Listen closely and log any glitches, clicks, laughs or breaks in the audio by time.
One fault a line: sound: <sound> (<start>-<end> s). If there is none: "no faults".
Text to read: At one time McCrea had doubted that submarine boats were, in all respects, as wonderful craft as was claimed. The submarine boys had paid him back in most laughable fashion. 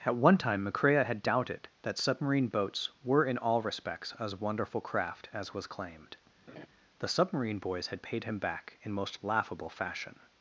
sound: laugh (6.5-6.7 s)